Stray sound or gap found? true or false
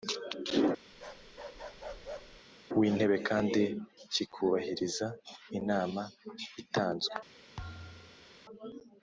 true